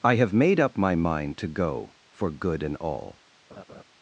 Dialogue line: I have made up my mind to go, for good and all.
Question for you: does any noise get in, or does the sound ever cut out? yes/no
yes